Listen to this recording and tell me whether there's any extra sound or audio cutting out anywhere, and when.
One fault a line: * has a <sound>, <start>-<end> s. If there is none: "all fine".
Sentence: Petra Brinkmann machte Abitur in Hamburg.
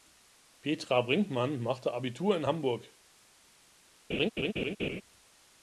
* has a laugh, 4.1-5.0 s